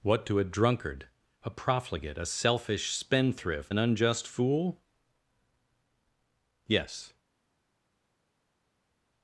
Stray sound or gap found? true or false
false